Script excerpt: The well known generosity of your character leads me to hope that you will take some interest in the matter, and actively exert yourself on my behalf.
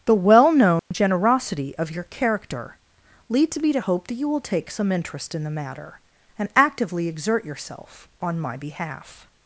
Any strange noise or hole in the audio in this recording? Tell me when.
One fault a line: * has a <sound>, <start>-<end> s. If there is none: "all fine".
* has a dropout, 0.8-0.9 s